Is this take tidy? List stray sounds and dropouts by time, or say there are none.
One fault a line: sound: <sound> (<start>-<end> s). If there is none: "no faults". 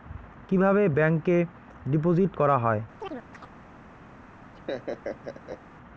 sound: chirp (3.0-3.5 s)
sound: laugh (4.5-5.6 s)